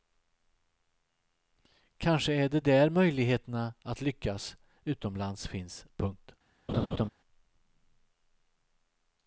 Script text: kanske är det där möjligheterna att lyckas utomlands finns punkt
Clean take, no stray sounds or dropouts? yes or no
no